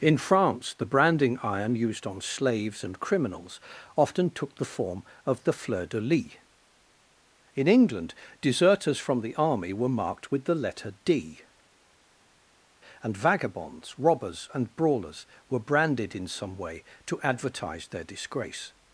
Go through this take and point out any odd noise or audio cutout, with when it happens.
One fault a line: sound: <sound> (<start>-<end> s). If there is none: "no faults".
no faults